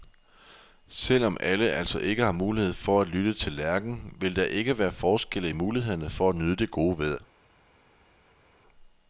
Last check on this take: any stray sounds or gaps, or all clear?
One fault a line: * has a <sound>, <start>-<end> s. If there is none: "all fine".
all fine